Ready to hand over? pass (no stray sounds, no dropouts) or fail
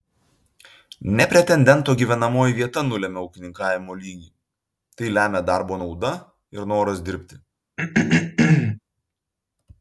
fail